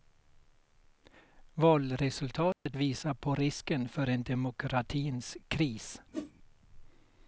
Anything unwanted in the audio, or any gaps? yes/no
yes